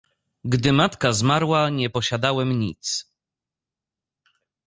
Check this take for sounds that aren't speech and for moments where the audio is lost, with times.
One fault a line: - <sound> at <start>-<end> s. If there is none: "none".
none